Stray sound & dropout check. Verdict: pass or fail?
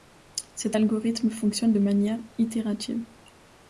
pass